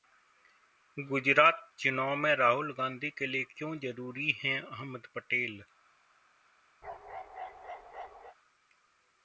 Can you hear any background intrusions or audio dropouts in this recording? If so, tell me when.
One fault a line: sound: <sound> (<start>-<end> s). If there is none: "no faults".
sound: bark (6.8-8.4 s)